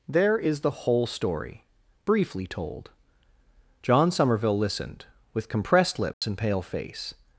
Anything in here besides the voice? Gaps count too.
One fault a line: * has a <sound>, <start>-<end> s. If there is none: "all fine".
* has a dropout, 6.1-6.2 s